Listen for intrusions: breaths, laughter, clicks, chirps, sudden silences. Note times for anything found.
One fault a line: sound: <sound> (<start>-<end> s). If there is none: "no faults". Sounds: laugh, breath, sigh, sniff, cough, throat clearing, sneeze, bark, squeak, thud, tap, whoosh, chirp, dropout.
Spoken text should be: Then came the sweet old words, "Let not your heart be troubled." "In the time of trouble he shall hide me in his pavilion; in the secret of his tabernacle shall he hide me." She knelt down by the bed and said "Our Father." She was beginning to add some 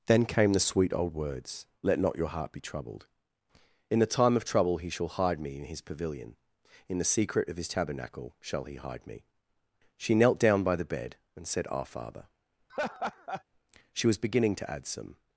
sound: laugh (12.7-13.4 s)